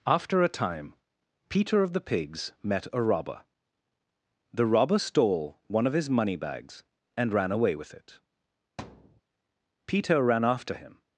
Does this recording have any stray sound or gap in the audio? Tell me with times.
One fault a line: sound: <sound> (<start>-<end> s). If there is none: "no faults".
sound: thud (8.8-9.2 s)